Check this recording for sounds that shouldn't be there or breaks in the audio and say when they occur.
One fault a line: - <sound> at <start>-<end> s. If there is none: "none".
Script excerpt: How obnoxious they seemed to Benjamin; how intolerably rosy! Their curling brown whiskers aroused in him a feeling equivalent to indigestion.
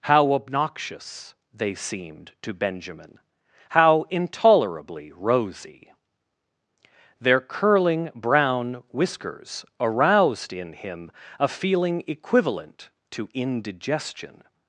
none